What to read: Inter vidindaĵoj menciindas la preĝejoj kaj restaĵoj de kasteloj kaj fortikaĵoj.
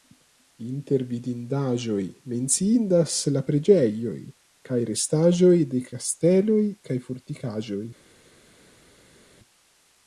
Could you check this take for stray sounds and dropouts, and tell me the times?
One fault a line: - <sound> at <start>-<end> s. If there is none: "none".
none